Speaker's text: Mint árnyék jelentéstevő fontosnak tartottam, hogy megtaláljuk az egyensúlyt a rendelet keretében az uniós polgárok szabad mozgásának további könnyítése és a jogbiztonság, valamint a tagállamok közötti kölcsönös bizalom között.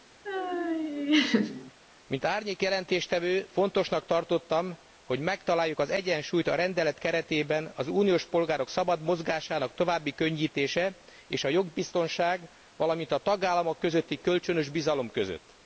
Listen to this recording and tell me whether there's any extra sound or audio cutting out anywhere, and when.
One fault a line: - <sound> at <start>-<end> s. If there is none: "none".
- laugh at 0.2-1.7 s